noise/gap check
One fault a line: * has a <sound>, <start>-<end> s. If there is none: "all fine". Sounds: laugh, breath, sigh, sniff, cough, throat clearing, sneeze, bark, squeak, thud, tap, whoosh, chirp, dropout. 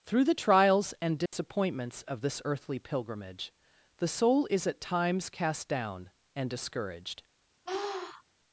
* has a dropout, 1.3-1.3 s
* has a sniff, 7.7-8.2 s